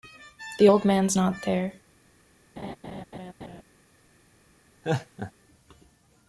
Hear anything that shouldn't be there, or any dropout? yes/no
yes